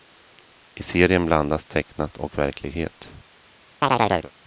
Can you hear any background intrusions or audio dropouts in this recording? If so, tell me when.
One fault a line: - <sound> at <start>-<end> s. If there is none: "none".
- chirp at 3.8-4.3 s